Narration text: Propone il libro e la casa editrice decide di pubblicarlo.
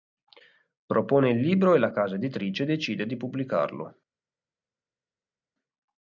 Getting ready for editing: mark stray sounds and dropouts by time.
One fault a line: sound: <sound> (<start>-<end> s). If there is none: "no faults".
no faults